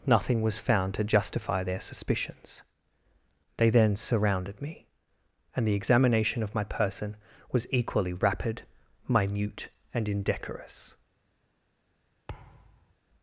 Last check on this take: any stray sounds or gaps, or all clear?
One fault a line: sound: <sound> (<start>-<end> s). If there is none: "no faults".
sound: thud (12.3-12.9 s)